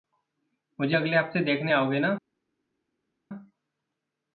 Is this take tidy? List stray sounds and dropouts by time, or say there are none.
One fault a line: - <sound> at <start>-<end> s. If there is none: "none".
none